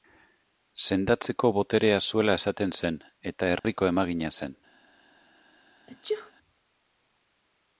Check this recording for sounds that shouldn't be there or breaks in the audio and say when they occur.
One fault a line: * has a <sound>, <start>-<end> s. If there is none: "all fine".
* has a dropout, 3.6-3.6 s
* has a sneeze, 5.9-6.3 s